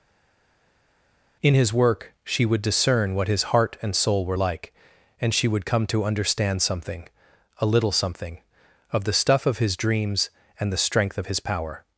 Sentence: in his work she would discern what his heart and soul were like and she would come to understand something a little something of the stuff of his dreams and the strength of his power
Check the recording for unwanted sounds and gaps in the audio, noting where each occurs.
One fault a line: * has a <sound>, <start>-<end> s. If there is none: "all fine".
all fine